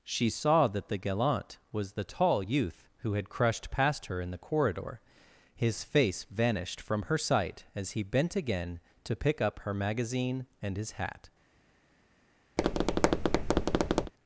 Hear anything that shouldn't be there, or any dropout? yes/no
yes